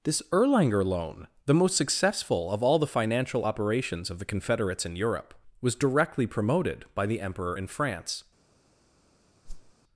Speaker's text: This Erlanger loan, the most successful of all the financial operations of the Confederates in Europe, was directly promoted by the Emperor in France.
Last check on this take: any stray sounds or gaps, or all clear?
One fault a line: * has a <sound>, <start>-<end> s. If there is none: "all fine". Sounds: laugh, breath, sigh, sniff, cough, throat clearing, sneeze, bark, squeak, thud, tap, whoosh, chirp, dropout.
* has a whoosh, 9.4-9.7 s